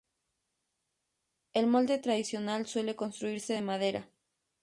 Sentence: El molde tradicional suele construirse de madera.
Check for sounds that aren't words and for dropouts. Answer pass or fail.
pass